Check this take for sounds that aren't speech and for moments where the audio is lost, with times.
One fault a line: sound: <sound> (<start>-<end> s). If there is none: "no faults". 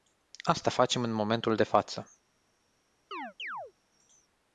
sound: chirp (3.1-3.7 s)